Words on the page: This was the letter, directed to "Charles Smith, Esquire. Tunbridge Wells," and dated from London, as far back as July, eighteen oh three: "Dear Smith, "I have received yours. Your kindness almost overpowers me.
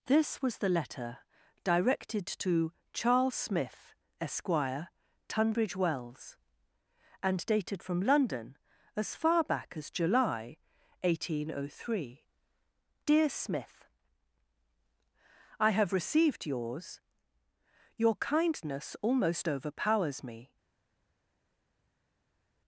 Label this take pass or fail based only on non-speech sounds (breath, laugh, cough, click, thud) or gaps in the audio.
pass